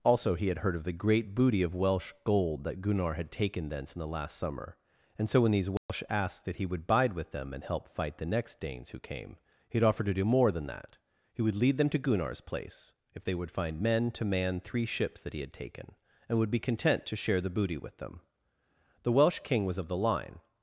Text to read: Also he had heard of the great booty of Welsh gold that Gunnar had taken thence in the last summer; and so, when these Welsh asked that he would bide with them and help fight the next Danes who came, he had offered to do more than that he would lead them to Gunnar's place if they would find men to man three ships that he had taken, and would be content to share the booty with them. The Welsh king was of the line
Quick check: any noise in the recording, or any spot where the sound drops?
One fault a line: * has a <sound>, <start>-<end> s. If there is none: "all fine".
* has a dropout, 5.8-5.9 s